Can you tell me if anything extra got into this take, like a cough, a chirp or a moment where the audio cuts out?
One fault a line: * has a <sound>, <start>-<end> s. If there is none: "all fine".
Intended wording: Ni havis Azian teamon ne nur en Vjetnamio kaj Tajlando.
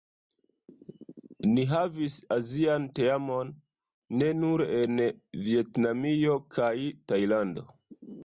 all fine